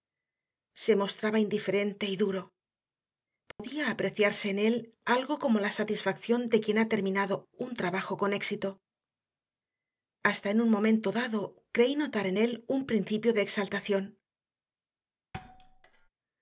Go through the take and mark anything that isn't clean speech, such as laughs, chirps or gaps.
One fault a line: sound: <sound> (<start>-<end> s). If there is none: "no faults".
sound: dropout (3.5-3.6 s)
sound: thud (15.3-16.1 s)